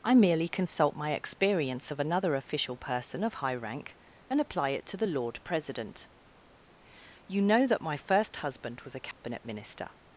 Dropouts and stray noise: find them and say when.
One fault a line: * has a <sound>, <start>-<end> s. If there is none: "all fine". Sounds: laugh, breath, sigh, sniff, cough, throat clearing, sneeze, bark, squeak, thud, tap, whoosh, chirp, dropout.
* has a dropout, 9.1-9.2 s